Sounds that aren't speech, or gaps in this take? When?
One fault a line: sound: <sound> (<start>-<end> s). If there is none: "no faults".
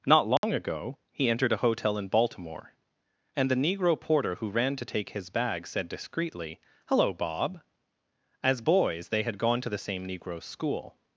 sound: dropout (0.4-0.4 s)